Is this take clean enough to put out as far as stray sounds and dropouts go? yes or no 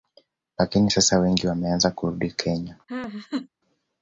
no